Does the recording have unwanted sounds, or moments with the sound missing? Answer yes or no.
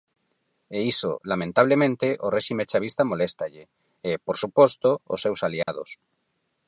yes